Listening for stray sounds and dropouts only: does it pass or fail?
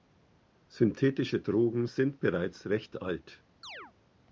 fail